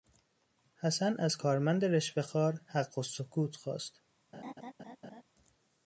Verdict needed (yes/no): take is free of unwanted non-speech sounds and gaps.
no